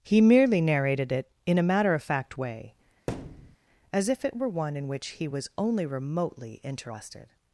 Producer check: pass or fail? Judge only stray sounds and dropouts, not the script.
fail